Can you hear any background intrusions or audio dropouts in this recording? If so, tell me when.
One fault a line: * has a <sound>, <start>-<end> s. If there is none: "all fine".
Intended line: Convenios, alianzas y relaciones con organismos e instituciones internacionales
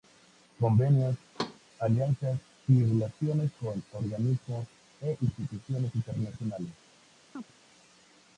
* has a thud, 1.3-1.6 s
* has a chirp, 7.3-7.5 s